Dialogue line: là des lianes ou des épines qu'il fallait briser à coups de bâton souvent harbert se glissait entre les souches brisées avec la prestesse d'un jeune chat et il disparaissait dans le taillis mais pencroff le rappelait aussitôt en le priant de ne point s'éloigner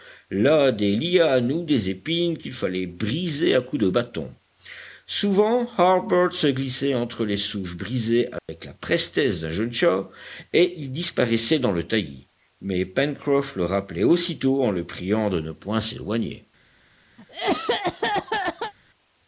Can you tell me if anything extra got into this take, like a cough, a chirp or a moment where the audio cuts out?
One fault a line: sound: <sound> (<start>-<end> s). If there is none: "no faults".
sound: dropout (8.4-8.5 s)
sound: cough (17.2-18.7 s)